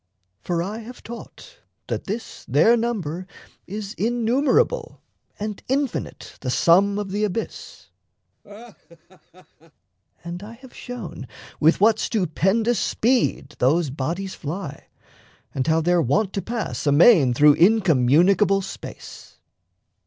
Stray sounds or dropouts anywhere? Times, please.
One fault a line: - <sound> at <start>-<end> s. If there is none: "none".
- laugh at 8.4-9.7 s